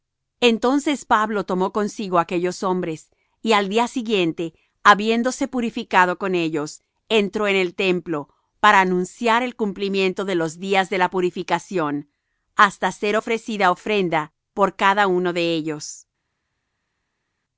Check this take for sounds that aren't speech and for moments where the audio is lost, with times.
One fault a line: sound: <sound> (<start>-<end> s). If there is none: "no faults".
no faults